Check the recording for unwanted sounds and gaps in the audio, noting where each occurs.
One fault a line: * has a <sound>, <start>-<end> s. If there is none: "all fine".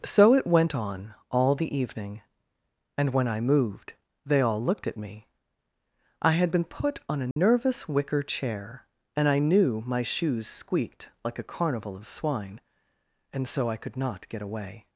* has a dropout, 7.3-7.4 s